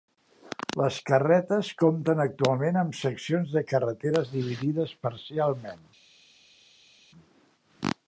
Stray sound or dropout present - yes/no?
no